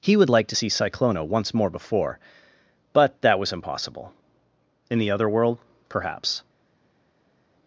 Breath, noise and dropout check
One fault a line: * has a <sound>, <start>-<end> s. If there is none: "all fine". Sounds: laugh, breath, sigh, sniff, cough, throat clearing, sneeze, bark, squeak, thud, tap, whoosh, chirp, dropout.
all fine